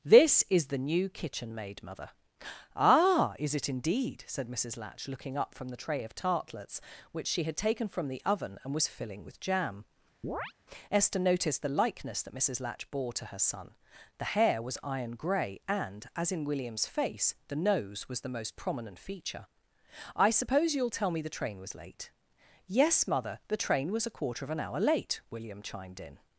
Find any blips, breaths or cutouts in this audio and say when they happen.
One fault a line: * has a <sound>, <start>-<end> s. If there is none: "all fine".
* has a chirp, 10.2-10.5 s